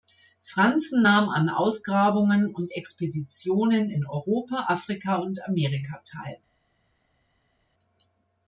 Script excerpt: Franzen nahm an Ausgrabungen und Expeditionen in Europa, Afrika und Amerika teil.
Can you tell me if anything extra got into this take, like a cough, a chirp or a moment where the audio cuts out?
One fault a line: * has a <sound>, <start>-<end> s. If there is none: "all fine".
all fine